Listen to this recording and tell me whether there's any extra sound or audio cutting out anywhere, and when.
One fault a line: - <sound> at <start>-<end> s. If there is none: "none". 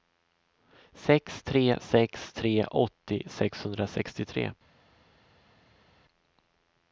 none